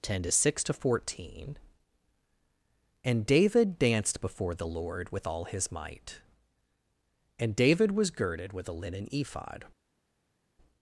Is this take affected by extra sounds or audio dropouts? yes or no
no